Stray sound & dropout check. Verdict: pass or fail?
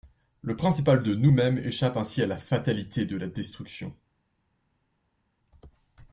pass